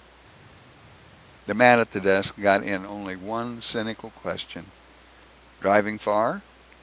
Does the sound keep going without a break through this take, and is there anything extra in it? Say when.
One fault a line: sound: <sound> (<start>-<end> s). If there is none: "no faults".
no faults